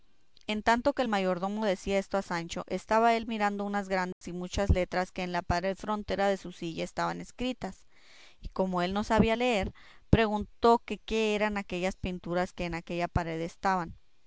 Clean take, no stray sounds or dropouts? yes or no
no